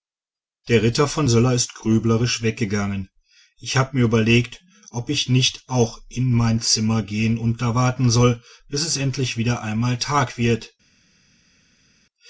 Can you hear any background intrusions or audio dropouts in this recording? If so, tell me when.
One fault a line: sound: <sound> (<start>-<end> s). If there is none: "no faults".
no faults